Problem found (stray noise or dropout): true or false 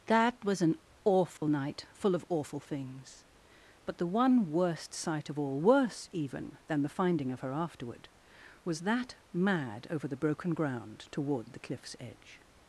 true